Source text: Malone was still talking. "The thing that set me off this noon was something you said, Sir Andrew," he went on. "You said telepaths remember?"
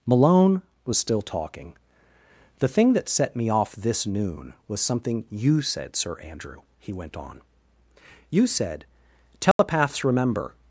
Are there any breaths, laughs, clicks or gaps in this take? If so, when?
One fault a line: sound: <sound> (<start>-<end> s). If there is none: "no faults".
sound: dropout (9.5-9.6 s)